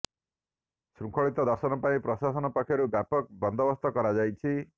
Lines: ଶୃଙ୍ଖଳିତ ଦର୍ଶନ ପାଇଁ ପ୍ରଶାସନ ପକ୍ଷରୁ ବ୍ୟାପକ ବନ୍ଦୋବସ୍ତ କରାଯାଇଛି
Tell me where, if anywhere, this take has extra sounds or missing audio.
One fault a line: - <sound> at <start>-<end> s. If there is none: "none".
none